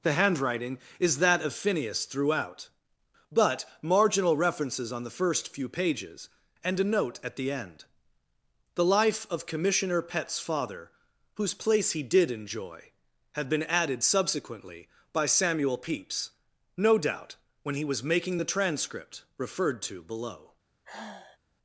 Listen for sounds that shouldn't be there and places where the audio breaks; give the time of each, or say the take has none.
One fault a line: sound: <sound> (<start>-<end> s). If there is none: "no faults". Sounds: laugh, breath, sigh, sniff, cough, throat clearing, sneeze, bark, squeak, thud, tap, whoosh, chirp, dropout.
sound: sigh (20.8-21.4 s)